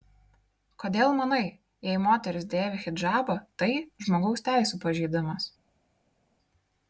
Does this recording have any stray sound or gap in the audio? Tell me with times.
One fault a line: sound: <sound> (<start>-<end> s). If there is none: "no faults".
no faults